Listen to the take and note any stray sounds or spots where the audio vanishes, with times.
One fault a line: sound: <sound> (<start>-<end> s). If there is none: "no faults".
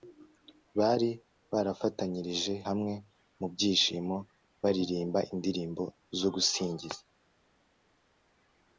no faults